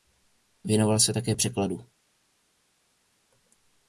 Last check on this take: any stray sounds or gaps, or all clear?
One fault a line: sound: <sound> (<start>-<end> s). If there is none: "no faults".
no faults